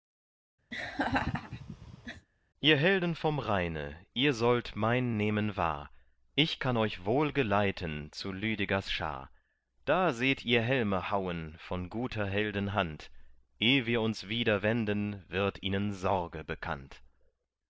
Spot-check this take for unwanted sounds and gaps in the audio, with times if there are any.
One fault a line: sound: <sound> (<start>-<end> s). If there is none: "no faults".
sound: laugh (0.7-2.3 s)